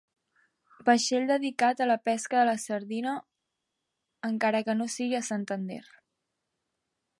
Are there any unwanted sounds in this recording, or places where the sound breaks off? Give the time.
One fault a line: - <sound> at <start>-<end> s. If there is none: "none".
none